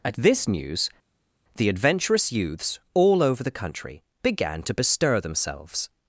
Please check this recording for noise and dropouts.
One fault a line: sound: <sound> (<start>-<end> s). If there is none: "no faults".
no faults